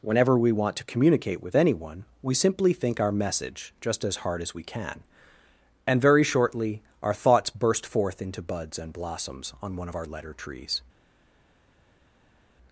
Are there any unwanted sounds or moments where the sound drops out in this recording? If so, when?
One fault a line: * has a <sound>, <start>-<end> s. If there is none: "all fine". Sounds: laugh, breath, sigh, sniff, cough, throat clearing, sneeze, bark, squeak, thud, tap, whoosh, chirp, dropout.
all fine